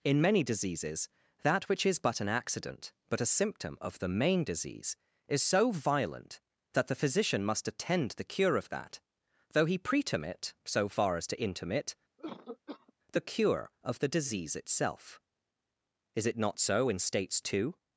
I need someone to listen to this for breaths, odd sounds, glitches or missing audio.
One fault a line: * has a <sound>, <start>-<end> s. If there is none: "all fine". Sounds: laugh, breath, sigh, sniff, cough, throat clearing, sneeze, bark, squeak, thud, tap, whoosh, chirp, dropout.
* has a cough, 12.2-12.9 s